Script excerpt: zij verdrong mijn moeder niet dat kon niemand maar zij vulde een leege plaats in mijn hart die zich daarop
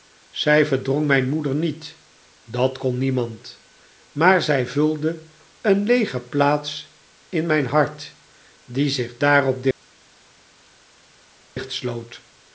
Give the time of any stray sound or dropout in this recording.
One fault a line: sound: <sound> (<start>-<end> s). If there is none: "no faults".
no faults